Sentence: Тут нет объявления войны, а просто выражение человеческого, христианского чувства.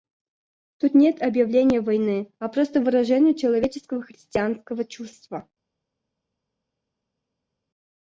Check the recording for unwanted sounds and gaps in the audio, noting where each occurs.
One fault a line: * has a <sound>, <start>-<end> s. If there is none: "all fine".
all fine